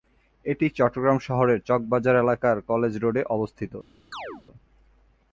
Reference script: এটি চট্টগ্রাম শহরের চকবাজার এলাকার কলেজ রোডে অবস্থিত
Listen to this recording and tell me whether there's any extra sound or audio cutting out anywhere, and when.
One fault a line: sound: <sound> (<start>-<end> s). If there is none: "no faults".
sound: chirp (4.1-4.4 s)